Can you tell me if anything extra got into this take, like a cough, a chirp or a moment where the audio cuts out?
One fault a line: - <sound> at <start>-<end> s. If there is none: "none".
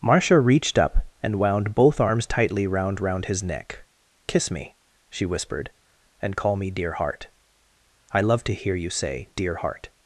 none